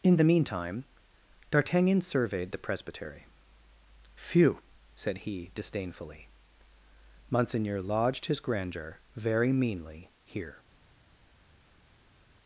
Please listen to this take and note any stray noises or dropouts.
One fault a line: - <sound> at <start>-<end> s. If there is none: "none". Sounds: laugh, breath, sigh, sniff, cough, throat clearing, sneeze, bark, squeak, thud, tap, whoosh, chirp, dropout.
none